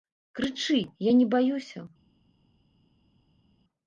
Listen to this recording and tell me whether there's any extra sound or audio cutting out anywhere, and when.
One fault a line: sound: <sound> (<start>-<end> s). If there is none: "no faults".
no faults